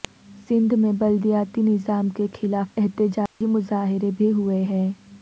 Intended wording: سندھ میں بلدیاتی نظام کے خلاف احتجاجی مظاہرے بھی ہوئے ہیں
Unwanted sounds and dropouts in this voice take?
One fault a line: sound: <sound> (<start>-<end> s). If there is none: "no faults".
sound: dropout (3.3-3.4 s)